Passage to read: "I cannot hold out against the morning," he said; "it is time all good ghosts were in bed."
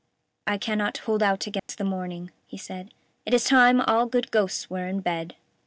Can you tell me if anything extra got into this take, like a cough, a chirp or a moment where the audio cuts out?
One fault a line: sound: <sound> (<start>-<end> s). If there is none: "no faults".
sound: dropout (1.6-1.7 s)